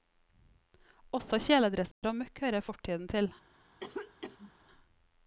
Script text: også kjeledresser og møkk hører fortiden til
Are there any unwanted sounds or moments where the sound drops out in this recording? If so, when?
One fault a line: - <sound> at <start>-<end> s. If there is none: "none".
- dropout at 1.9-2.0 s
- cough at 3.8-4.5 s